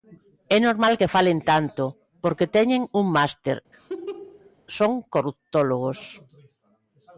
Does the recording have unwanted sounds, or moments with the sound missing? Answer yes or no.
yes